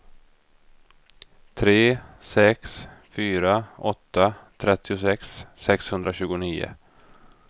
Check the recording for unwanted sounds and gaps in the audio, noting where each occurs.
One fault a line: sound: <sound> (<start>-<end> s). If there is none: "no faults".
no faults